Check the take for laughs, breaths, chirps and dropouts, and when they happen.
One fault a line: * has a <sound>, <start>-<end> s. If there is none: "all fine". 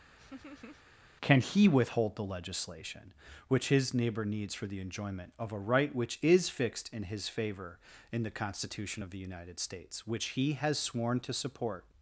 * has a laugh, 0.2-0.8 s